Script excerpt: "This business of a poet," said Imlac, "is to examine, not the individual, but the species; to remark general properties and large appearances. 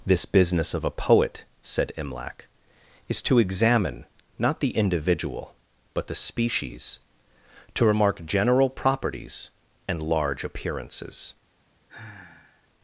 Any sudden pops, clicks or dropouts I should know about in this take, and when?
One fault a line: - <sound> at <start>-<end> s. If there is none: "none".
- sigh at 11.9-12.7 s